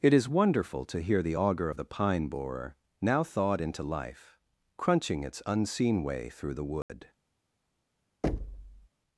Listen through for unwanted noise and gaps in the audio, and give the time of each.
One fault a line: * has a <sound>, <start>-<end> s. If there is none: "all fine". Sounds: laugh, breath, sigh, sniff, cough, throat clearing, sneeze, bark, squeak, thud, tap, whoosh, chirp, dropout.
* has a dropout, 6.8-6.9 s
* has a thud, 8.2-8.9 s